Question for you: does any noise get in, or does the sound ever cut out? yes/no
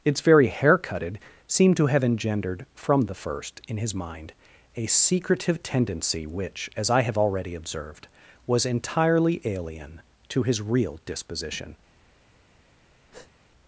yes